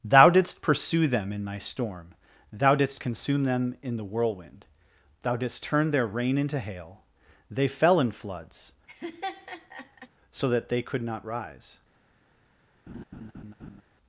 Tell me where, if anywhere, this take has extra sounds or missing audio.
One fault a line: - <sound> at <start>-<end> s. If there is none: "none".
- laugh at 8.9-10.1 s
- laugh at 12.9-13.8 s